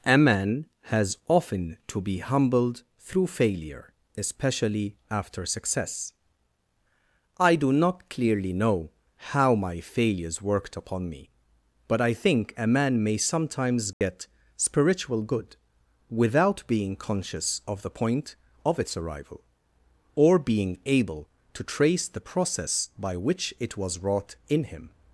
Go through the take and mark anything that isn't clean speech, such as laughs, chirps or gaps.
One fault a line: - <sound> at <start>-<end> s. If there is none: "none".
- dropout at 13.9-14.0 s